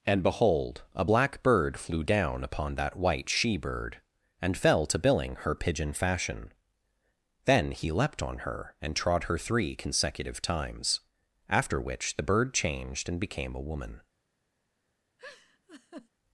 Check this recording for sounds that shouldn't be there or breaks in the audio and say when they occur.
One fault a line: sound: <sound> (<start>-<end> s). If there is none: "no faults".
sound: laugh (15.2-16.1 s)